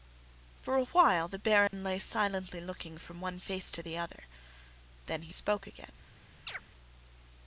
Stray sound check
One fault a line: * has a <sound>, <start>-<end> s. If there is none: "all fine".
* has a dropout, 1.7-1.7 s
* has a chirp, 6.5-6.6 s